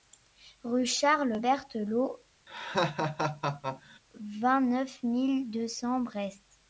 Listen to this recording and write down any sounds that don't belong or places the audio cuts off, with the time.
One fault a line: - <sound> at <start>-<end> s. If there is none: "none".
- laugh at 2.5-4.0 s